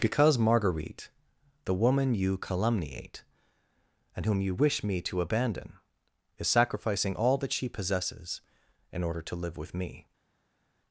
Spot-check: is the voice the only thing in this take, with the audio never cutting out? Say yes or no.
yes